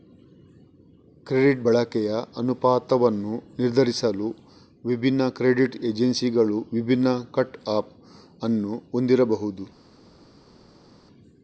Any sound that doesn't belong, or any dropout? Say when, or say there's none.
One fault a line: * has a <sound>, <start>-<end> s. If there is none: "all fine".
all fine